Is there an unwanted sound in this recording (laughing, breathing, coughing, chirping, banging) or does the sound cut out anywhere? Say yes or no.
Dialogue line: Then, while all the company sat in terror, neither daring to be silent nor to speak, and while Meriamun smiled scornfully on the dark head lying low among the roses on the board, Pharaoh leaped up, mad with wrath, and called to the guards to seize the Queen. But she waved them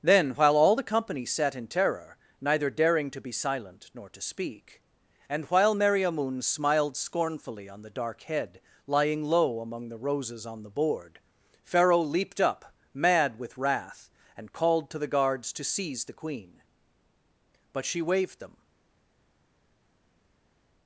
no